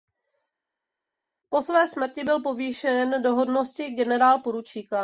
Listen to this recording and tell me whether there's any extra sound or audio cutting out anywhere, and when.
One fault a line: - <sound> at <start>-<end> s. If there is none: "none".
none